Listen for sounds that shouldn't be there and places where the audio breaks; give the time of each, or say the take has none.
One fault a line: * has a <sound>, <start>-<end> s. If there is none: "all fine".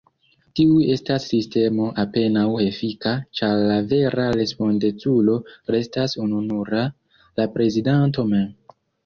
all fine